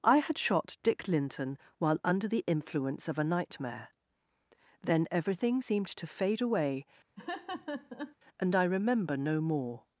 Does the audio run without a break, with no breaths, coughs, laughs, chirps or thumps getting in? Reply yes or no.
no